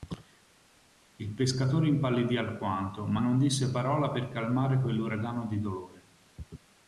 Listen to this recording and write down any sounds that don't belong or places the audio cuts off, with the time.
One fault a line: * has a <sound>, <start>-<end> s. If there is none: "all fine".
all fine